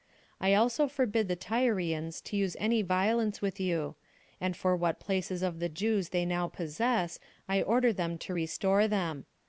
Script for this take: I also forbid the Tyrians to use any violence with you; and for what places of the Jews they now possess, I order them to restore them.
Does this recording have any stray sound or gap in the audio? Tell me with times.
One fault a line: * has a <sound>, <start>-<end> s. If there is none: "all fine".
all fine